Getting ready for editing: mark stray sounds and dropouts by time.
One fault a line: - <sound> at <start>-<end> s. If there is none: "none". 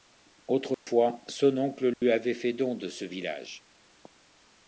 - dropout at 0.7-0.9 s
- dropout at 1.9-2.0 s